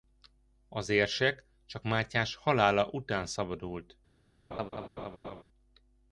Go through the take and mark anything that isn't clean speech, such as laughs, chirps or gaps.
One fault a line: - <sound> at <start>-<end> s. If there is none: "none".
- laugh at 4.5-5.4 s